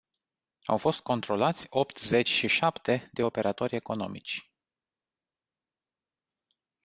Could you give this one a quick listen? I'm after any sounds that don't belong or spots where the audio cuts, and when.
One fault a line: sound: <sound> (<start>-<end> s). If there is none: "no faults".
no faults